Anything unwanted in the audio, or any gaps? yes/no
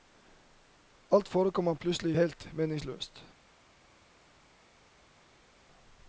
no